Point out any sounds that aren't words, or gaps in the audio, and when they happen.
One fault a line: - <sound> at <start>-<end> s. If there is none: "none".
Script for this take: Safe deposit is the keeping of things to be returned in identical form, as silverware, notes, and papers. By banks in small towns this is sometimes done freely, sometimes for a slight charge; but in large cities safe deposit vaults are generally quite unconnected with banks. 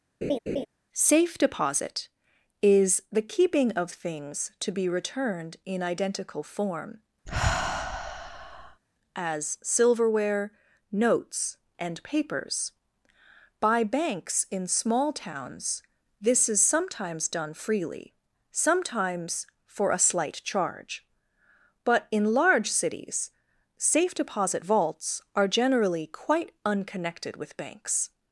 - laugh at 0.2-0.7 s
- sigh at 7.3-8.8 s